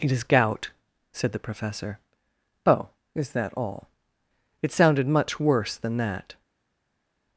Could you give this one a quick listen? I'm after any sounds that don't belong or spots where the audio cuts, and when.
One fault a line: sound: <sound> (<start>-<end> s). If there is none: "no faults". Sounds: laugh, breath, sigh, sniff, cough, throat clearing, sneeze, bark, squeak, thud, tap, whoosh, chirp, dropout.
no faults